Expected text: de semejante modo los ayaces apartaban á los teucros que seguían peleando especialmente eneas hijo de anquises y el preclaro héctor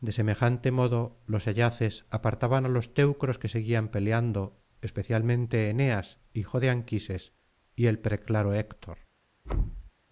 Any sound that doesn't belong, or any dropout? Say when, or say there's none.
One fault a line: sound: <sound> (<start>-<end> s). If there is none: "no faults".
sound: thud (9.4-9.9 s)